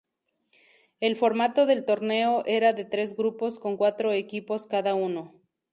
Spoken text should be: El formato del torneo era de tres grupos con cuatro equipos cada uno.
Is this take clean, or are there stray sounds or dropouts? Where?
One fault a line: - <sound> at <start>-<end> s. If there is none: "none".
none